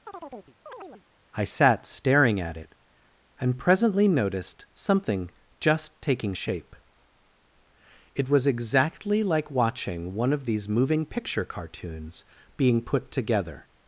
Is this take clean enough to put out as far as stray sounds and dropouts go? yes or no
no